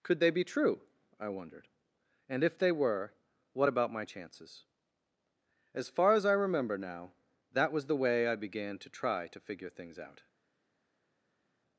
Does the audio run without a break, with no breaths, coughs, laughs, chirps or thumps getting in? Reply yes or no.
yes